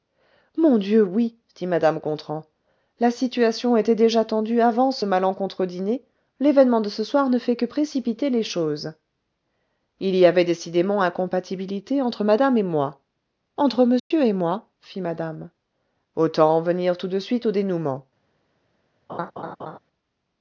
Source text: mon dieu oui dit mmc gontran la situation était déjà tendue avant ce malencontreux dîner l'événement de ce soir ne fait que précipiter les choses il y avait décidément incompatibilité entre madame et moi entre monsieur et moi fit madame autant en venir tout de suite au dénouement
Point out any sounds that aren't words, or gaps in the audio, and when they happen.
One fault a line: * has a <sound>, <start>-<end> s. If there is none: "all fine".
* has a dropout, 14.0-14.1 s
* has a laugh, 19.1-19.8 s